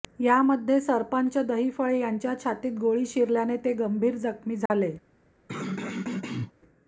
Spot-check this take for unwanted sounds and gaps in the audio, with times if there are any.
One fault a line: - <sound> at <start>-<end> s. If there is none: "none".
- dropout at 4.7-4.7 s
- throat clearing at 5.5-6.5 s